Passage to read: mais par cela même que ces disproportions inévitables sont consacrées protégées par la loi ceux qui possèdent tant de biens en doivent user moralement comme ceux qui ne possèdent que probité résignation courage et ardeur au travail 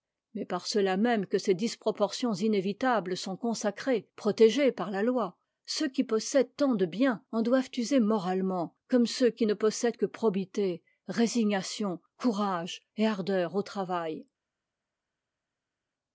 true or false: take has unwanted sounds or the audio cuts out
false